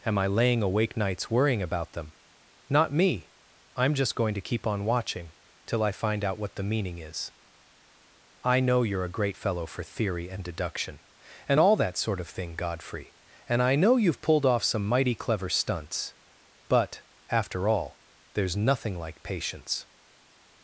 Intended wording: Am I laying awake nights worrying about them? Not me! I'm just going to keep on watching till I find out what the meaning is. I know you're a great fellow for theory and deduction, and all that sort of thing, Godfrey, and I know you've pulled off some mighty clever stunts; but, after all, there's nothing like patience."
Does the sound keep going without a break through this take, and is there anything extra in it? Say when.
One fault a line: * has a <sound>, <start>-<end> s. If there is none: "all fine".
all fine